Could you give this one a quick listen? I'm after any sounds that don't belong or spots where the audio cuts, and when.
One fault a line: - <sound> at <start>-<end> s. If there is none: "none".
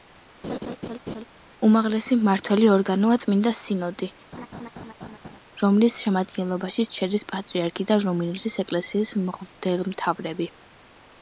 - laugh at 0.4-1.3 s
- laugh at 4.3-5.4 s